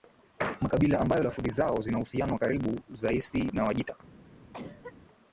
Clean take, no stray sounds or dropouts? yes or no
no